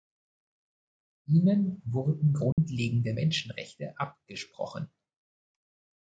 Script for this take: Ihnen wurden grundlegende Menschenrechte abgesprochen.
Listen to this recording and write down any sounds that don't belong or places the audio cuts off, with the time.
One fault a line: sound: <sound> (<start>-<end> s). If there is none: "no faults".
sound: dropout (2.5-2.6 s)